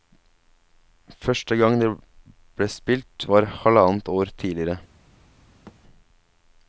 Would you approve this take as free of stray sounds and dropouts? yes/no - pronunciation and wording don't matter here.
no